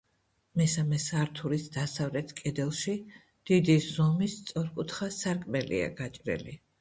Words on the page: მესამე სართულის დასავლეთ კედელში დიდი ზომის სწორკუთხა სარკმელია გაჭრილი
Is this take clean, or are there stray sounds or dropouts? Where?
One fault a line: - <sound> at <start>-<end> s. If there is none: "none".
none